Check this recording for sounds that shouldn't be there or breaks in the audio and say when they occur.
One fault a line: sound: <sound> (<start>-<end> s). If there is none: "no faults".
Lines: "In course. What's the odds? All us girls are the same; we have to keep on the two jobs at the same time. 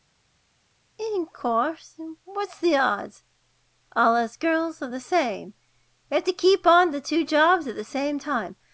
no faults